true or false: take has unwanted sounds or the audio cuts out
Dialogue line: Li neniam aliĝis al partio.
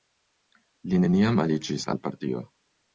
false